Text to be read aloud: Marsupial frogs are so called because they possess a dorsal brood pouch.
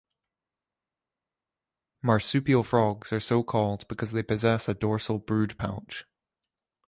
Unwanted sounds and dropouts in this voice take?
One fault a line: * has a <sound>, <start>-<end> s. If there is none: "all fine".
all fine